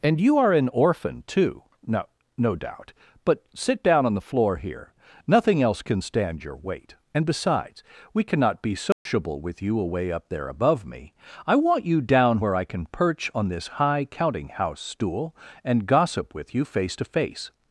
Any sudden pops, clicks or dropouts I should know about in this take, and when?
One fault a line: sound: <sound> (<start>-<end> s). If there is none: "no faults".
sound: dropout (8.9-9.1 s)